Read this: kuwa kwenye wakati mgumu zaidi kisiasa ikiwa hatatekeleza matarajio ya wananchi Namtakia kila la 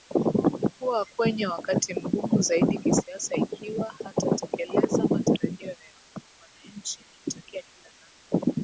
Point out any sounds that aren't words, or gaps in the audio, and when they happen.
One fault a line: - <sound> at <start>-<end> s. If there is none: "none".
none